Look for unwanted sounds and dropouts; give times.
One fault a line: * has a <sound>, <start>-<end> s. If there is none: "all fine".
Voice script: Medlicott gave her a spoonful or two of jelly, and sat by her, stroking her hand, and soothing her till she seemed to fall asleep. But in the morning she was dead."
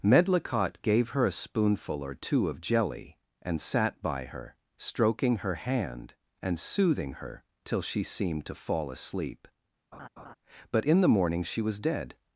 * has a laugh, 9.9-10.3 s